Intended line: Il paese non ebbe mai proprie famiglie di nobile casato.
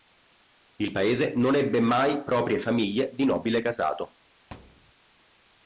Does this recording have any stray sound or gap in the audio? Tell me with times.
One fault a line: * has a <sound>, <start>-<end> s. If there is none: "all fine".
* has a thud, 4.5-4.9 s